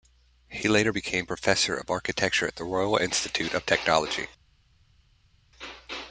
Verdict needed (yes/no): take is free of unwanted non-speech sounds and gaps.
yes